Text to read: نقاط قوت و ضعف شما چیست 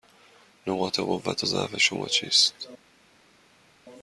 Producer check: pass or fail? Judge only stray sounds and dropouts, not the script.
pass